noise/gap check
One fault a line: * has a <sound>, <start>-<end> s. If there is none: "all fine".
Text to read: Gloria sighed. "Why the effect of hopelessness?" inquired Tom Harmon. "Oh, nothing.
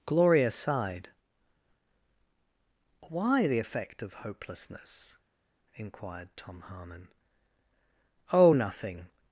all fine